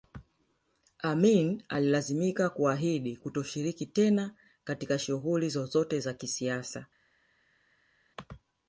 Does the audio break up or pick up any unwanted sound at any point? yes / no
no